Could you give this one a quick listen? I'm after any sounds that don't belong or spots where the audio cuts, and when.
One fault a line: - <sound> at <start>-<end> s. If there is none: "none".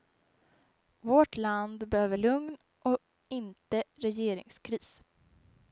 none